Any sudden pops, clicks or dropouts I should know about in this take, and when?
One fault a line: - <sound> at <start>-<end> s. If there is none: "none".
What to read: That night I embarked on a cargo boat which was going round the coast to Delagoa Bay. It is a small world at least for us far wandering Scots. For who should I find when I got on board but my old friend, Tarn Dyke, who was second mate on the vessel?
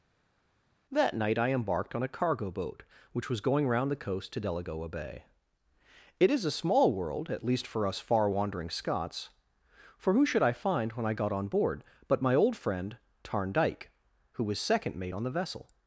none